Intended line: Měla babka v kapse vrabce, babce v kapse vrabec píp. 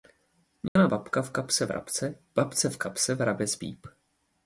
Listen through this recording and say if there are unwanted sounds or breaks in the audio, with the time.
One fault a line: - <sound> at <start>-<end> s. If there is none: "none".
- dropout at 0.7-0.8 s